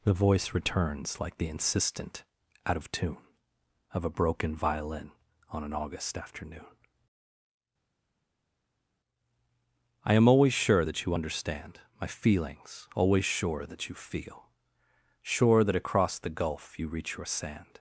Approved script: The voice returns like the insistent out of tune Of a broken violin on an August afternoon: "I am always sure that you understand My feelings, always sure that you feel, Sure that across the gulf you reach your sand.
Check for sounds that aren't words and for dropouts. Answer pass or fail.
pass